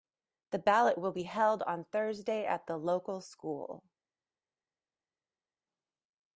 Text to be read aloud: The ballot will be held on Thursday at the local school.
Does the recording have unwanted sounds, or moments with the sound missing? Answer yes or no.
no